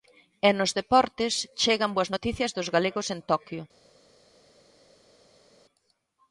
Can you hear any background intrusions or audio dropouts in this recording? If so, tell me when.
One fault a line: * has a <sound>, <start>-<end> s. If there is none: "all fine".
all fine